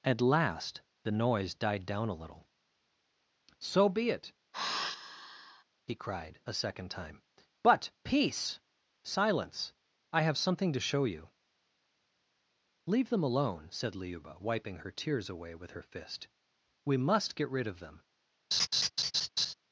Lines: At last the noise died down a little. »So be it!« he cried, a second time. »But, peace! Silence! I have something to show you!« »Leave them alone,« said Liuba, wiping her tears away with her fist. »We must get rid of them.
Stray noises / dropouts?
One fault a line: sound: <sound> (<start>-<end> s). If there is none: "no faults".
sound: sigh (4.5-5.6 s)
sound: laugh (18.5-19.5 s)